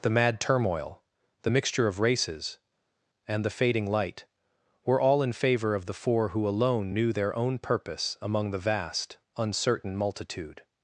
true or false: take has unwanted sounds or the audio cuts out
false